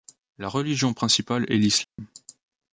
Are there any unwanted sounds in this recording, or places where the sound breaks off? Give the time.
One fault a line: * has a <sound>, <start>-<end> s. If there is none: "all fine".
* has a dropout, 1.8-2.0 s